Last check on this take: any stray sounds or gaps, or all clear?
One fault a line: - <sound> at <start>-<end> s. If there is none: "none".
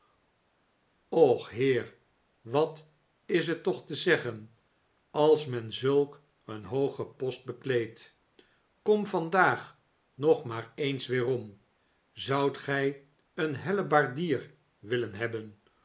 none